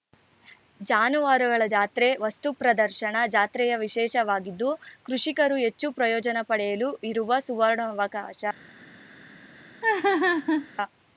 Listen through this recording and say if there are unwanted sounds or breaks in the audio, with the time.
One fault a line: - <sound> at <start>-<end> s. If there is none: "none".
- laugh at 9.8-10.7 s